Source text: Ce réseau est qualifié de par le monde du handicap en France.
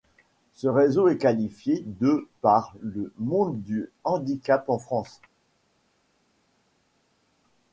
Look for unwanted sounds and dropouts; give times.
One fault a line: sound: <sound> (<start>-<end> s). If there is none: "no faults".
no faults